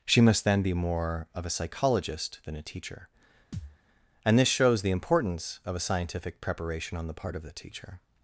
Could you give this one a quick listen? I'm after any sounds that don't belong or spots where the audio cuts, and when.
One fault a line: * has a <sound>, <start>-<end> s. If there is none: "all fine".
* has a thud, 3.5-3.8 s